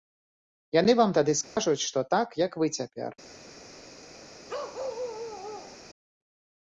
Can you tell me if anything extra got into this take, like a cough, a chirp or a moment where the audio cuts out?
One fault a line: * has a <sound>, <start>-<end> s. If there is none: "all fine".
* has a dropout, 1.4-1.6 s
* has a bark, 4.5-5.8 s